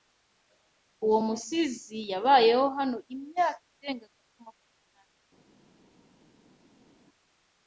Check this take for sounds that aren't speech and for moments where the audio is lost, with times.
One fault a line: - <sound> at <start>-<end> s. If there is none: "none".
none